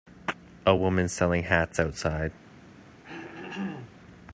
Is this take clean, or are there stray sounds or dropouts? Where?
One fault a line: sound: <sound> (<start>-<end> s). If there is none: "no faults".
sound: throat clearing (3.0-4.0 s)